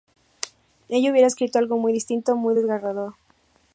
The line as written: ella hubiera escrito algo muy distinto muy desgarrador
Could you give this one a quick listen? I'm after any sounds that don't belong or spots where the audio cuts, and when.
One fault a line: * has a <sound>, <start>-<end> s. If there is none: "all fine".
all fine